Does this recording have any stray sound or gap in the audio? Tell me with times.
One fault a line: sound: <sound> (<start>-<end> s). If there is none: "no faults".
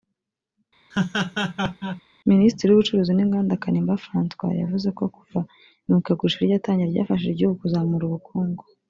sound: laugh (0.9-2.0 s)